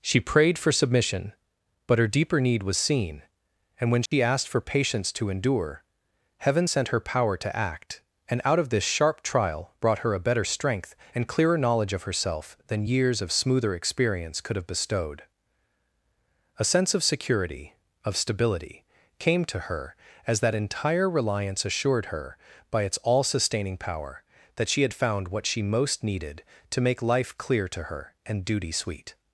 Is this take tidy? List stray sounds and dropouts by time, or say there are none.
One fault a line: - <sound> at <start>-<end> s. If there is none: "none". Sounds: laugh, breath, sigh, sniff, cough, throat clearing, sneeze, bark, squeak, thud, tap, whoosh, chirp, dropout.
- dropout at 4.1-4.1 s